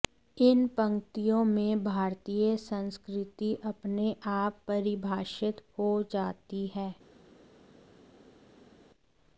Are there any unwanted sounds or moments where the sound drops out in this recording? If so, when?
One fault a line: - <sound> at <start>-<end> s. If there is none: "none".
none